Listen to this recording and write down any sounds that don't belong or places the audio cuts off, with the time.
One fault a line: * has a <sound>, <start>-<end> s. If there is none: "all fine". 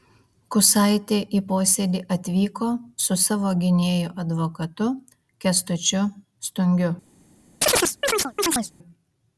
* has a chirp, 7.6-8.7 s